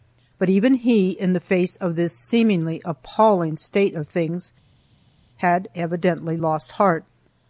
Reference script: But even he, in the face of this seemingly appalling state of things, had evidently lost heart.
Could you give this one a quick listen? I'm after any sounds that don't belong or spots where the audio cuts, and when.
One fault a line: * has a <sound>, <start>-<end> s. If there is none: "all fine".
all fine